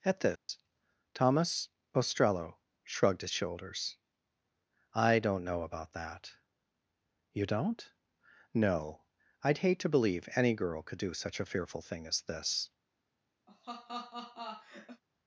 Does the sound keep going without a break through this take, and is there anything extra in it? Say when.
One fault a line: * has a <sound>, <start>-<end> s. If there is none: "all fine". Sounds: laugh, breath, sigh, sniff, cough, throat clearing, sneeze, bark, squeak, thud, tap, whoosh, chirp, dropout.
* has a dropout, 0.4-0.5 s
* has a laugh, 13.5-15.0 s